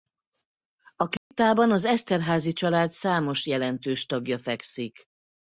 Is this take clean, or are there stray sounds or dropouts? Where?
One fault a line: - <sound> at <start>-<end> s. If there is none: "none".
- dropout at 1.2-1.3 s